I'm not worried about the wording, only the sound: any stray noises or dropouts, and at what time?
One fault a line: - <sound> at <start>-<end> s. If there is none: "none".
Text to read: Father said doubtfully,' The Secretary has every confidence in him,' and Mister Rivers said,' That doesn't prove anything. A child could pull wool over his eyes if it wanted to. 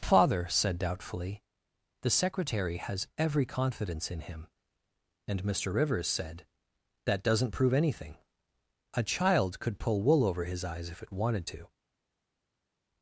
none